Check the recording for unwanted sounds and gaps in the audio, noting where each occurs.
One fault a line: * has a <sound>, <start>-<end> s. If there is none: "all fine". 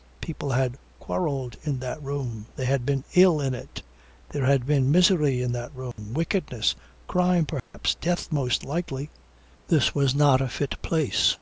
* has a dropout, 5.9-6.0 s
* has a dropout, 7.6-7.7 s